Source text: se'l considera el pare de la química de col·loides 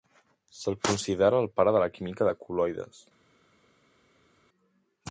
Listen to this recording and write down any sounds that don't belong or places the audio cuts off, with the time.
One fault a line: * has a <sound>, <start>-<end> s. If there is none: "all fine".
all fine